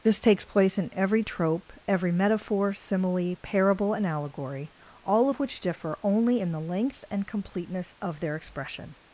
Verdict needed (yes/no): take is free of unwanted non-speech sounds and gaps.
yes